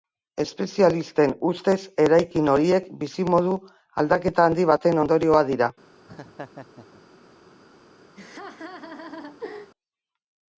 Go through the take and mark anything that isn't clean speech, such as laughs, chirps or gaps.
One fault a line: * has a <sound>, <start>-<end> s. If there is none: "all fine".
* has a laugh, 6.1-7.0 s
* has a laugh, 8.2-9.7 s